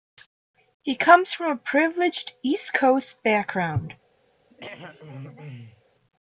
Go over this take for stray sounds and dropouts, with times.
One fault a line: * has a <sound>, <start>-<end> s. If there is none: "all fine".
* has a throat clearing, 4.5-5.8 s